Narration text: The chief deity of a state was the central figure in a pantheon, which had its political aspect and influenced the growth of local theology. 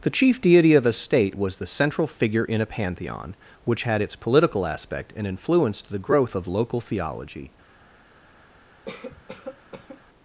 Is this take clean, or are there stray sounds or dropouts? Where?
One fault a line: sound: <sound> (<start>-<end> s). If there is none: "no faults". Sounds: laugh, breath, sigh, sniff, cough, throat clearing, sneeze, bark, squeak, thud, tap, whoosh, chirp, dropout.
sound: cough (8.9-10.0 s)